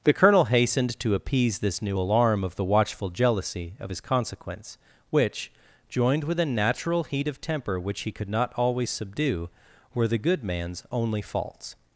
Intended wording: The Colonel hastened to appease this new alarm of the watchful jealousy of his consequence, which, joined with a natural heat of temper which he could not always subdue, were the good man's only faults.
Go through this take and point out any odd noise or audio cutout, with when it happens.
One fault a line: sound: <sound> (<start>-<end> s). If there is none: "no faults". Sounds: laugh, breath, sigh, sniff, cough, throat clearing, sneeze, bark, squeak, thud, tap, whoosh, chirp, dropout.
no faults